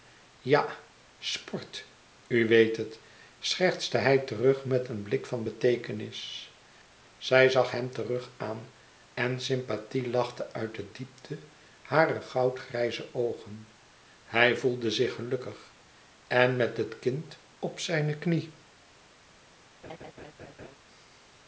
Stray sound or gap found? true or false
true